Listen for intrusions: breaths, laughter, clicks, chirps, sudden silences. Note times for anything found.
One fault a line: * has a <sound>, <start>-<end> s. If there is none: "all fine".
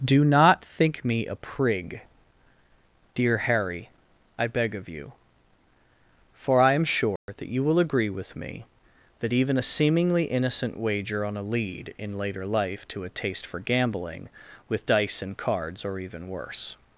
* has a dropout, 7.2-7.3 s